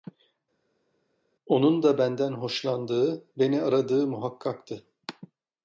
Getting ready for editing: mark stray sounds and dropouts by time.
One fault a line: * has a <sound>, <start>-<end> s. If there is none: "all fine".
all fine